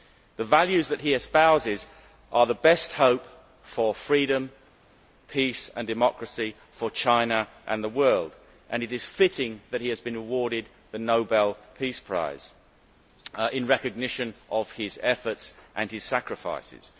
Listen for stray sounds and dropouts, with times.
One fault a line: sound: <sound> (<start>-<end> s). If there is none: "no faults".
no faults